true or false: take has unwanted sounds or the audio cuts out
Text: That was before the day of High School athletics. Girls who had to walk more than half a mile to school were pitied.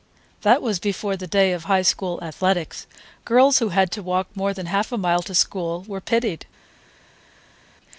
false